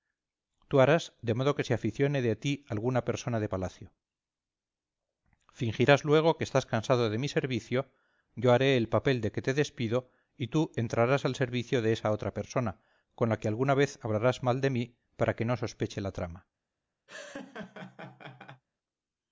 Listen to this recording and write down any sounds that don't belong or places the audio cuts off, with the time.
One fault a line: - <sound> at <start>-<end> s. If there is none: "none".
- laugh at 17.1-18.6 s